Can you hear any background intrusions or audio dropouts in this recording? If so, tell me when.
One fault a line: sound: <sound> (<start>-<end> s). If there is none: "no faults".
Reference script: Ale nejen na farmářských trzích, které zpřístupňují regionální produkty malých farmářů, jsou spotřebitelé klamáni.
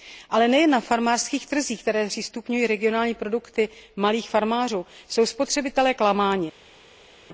no faults